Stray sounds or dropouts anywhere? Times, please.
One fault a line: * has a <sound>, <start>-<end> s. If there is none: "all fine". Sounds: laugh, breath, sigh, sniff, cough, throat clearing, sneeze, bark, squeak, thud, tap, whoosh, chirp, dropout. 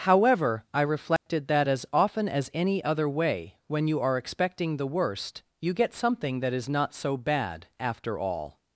* has a dropout, 1.2-1.3 s